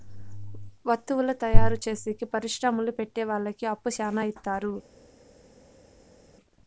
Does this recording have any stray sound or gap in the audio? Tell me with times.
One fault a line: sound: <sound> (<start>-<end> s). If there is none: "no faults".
no faults